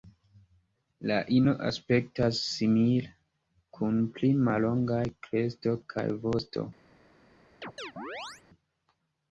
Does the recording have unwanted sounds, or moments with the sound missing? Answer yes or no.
yes